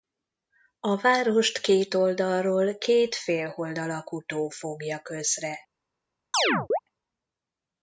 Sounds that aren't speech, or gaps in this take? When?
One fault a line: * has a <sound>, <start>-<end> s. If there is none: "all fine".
* has a chirp, 6.3-6.8 s